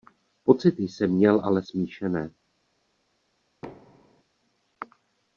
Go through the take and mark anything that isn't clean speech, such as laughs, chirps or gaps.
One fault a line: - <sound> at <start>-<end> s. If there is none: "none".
- thud at 3.6-4.2 s